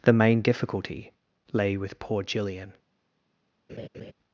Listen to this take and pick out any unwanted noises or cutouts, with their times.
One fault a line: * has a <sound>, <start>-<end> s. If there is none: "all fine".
* has a laugh, 3.7-4.1 s